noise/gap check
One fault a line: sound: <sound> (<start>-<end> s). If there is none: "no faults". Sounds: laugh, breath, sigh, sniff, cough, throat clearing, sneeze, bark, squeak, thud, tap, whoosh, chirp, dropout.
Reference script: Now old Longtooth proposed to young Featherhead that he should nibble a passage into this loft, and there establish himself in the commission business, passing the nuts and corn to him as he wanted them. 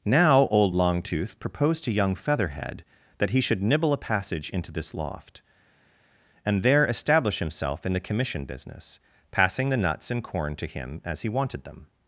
no faults